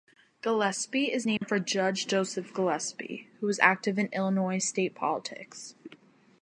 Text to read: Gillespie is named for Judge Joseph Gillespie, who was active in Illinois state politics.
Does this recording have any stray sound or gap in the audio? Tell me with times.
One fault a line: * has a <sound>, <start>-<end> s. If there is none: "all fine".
* has a dropout, 1.4-1.4 s